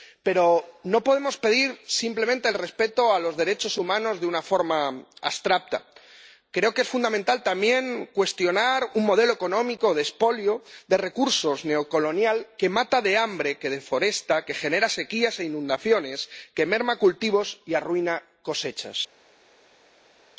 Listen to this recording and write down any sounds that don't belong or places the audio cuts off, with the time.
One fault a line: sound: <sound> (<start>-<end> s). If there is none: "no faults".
no faults